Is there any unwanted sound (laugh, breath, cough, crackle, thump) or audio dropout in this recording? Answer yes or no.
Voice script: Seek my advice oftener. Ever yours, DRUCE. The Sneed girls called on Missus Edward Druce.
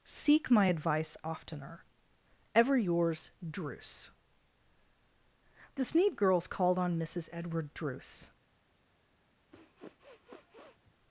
yes